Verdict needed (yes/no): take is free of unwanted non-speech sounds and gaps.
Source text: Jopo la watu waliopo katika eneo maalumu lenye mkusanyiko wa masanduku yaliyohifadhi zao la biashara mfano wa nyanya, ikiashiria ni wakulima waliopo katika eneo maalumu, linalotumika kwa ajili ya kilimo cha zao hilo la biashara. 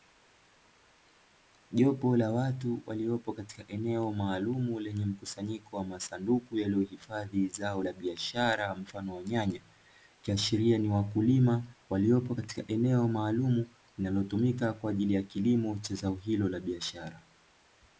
yes